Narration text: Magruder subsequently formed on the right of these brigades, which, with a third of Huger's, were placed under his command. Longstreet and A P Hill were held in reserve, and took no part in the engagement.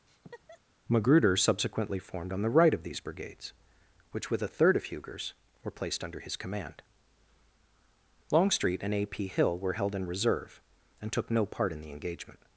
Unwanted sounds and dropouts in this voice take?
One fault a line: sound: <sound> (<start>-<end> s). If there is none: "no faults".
sound: laugh (0.1-0.6 s)